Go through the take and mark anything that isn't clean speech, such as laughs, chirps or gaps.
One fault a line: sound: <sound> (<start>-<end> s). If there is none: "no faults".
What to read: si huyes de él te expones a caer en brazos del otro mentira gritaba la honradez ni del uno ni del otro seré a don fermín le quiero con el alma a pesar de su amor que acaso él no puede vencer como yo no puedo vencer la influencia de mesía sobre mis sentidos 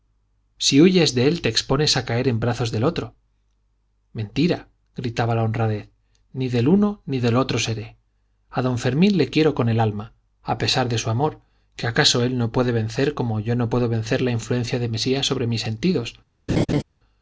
sound: laugh (16.5-16.8 s)